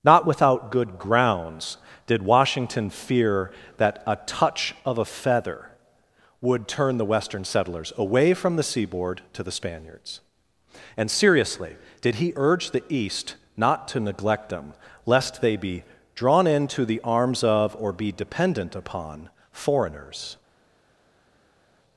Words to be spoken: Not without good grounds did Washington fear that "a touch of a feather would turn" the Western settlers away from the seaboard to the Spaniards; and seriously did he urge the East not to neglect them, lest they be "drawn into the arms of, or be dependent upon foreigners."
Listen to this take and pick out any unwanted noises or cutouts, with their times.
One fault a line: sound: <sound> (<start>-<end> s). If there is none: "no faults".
no faults